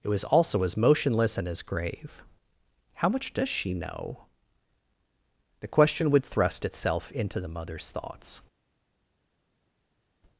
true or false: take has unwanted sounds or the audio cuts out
false